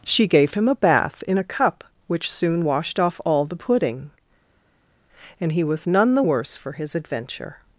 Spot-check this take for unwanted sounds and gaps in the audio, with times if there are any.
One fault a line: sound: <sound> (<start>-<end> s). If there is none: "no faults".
no faults